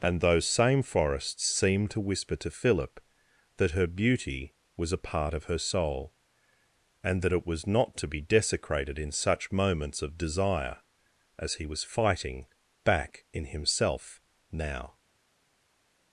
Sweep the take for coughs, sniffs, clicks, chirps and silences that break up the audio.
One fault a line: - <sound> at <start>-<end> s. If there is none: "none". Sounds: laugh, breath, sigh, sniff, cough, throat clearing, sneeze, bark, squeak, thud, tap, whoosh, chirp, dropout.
none